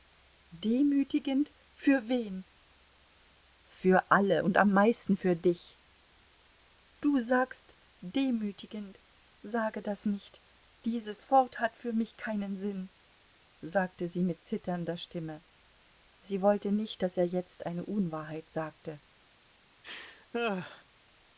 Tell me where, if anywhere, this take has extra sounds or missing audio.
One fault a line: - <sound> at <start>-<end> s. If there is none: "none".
- laugh at 19.8-20.8 s